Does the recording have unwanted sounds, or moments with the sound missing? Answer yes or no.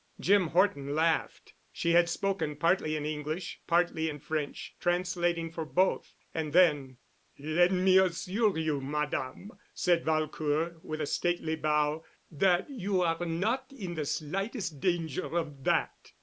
no